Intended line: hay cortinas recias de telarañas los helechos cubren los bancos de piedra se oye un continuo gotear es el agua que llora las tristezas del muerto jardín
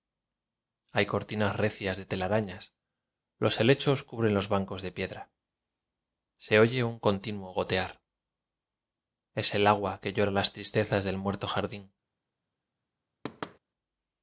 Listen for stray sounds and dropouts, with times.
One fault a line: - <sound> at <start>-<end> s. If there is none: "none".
- thud at 13.2-13.6 s